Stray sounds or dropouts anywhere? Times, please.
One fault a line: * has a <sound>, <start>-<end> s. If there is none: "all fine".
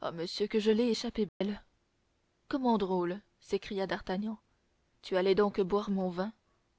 * has a dropout, 1.3-1.4 s